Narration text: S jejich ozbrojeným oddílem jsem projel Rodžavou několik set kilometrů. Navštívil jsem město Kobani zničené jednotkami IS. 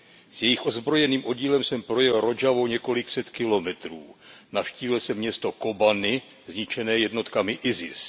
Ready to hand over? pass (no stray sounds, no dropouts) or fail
pass